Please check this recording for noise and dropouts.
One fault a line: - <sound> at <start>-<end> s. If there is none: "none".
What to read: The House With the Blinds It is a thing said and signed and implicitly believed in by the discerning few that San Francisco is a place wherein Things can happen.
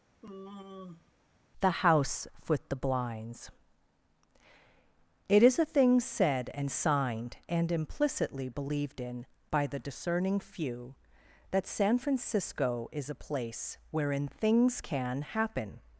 - sigh at 0.2-1.1 s